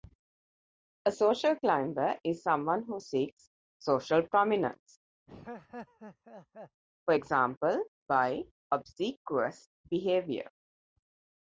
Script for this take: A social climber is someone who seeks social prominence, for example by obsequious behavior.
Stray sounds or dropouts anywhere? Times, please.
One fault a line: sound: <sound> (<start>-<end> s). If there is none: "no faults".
sound: laugh (5.3-6.8 s)